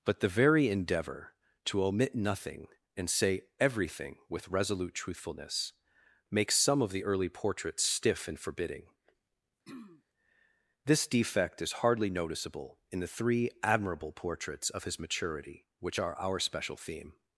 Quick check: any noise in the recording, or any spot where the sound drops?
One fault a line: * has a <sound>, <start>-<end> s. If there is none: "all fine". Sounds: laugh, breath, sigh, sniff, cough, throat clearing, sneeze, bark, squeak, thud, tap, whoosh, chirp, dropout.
* has a throat clearing, 9.7-10.0 s